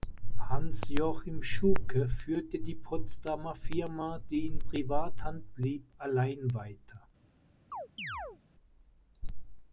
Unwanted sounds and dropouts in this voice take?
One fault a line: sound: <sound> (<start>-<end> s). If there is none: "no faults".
sound: chirp (7.7-8.4 s)